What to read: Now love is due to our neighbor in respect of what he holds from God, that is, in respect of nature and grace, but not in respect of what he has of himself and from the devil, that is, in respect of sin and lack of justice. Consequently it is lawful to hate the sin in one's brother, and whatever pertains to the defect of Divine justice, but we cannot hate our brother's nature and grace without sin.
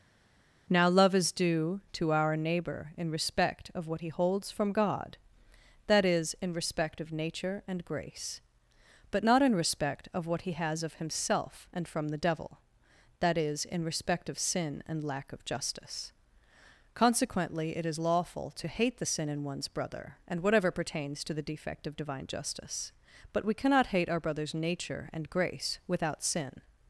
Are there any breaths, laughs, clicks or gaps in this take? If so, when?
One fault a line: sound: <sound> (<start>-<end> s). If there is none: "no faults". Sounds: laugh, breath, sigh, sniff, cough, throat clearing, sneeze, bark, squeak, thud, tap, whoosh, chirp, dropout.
no faults